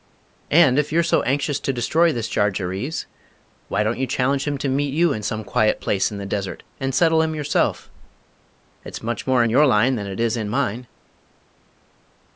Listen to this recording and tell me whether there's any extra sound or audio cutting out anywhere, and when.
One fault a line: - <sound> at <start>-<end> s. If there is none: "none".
none